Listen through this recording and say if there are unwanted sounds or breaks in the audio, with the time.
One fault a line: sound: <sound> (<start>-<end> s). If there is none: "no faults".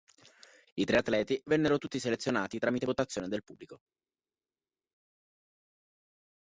no faults